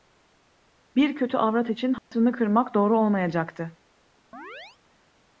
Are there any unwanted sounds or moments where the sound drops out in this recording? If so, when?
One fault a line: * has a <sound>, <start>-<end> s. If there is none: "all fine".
* has a dropout, 2.0-2.1 s
* has a chirp, 4.3-4.8 s